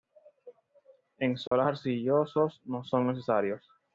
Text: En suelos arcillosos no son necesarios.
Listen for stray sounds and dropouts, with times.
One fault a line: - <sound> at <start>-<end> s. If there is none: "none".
- dropout at 1.5-1.5 s